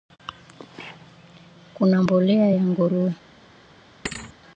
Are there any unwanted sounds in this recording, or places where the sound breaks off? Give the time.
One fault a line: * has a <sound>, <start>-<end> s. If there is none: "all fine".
* has a thud, 4.0-4.3 s